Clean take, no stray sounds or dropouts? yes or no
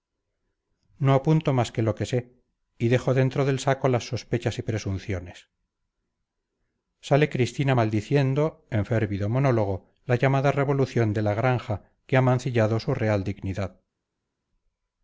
yes